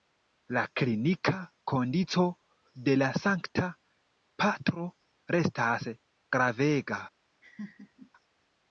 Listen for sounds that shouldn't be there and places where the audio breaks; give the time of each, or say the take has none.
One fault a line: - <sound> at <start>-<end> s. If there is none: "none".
- laugh at 7.4-8.1 s